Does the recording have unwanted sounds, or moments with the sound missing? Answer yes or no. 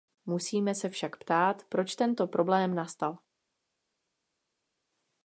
no